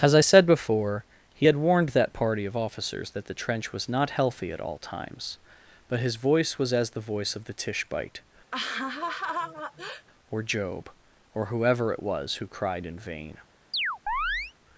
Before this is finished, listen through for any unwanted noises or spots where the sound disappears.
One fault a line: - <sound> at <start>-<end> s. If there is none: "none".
- laugh at 8.5-10.1 s
- chirp at 13.7-14.5 s